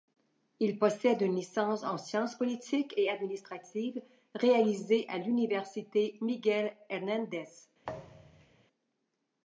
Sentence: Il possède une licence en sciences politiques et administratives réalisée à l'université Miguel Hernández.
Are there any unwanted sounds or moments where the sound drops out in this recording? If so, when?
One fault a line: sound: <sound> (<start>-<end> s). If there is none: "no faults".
sound: thud (7.8-8.7 s)